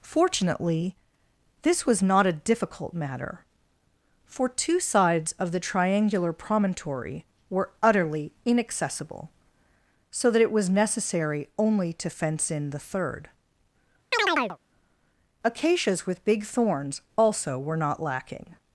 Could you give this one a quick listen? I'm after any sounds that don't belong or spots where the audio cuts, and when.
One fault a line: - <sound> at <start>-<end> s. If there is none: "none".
- chirp at 14.1-14.6 s